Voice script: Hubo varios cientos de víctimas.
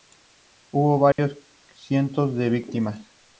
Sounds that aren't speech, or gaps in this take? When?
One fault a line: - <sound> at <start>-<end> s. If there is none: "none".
- dropout at 1.1-1.2 s